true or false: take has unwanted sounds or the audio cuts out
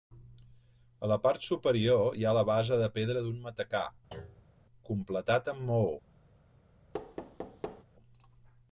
true